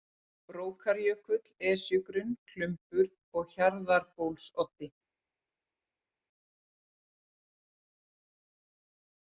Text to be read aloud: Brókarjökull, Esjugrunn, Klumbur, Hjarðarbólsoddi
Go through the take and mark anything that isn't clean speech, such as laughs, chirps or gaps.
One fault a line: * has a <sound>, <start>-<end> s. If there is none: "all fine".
all fine